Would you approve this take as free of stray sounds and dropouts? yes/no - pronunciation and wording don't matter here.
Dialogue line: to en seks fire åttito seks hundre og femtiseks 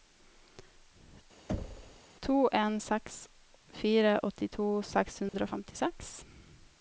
no